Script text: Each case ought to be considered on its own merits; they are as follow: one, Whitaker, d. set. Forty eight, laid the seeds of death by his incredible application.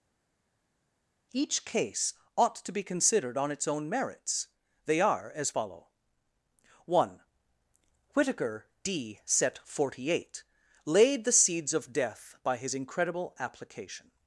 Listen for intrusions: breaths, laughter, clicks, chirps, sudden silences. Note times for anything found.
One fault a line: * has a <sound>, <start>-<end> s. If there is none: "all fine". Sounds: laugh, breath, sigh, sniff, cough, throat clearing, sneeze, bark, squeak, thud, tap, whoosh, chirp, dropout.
all fine